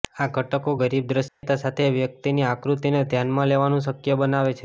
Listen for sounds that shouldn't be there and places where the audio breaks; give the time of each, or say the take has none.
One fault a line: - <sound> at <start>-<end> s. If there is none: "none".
- dropout at 1.3-1.4 s